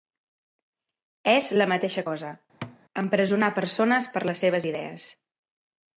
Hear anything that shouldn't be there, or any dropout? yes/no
yes